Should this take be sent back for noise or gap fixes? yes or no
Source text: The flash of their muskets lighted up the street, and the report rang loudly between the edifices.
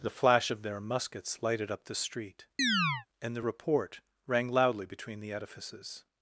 yes